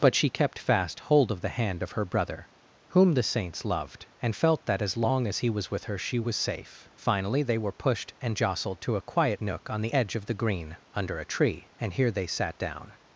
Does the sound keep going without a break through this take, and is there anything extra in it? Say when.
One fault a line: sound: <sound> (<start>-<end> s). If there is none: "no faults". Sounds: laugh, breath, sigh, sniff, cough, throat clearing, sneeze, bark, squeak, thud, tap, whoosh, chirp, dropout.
no faults